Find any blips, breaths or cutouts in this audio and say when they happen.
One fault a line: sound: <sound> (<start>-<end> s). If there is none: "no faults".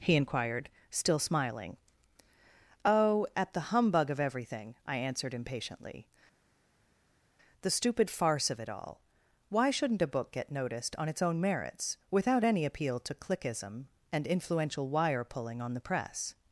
no faults